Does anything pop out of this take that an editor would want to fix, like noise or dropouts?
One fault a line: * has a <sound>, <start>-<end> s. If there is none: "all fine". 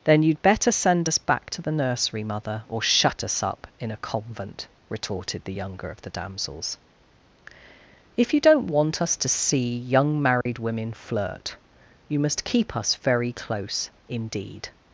* has a dropout, 10.4-10.5 s